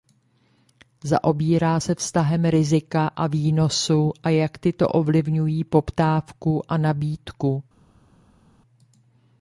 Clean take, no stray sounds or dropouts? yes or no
yes